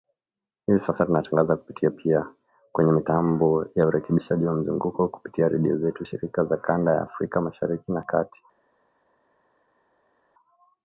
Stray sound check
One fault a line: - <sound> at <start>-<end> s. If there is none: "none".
none